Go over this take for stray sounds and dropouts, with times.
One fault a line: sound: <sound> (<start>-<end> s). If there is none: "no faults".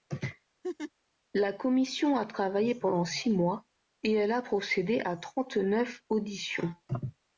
sound: laugh (0.6-0.9 s)